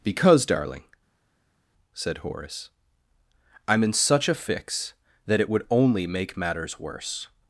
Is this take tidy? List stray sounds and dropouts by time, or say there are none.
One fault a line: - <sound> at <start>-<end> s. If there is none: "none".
none